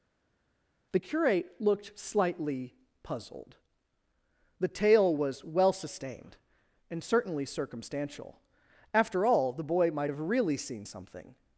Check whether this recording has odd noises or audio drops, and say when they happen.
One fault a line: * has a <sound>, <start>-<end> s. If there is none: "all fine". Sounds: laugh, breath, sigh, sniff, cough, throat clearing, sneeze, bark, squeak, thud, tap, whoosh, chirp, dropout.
all fine